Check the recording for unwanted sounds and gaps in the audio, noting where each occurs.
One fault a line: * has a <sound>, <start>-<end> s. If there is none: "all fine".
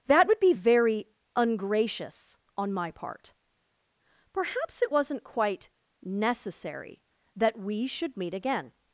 all fine